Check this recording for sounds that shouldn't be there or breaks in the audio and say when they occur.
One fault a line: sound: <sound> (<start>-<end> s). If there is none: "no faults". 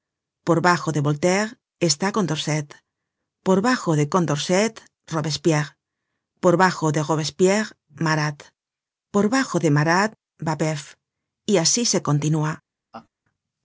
sound: laugh (12.9-13.1 s)